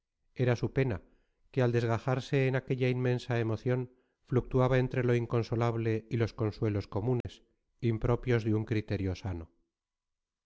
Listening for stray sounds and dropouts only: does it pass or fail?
fail